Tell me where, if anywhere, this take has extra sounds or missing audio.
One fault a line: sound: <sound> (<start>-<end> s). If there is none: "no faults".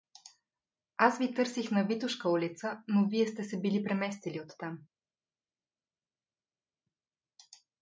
no faults